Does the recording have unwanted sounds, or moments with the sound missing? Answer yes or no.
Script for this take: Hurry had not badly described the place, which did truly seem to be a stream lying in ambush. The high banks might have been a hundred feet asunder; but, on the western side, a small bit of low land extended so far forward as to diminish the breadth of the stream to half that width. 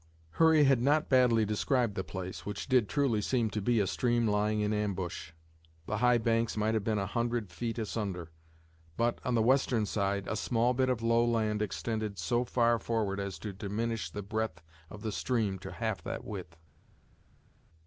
no